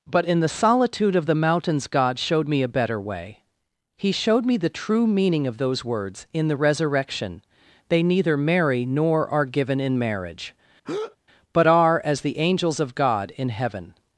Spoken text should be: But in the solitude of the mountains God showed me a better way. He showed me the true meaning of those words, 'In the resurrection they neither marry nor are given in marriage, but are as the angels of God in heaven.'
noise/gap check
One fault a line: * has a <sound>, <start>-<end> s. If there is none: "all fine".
* has a breath, 10.8-11.2 s